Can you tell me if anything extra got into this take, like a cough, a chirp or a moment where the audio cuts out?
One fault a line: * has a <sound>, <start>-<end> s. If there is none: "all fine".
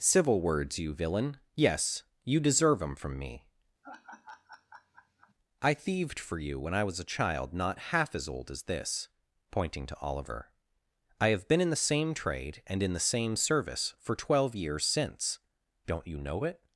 * has a laugh, 3.8-5.3 s